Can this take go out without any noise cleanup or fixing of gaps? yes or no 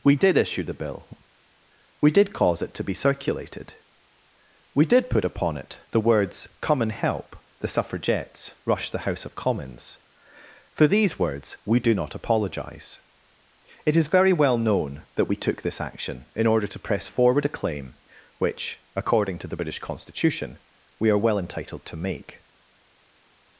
yes